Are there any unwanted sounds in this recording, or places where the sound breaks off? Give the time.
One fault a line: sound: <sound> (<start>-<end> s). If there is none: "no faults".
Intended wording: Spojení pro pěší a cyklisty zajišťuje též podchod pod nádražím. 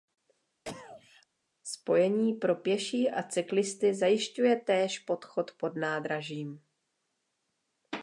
sound: cough (0.7-1.3 s)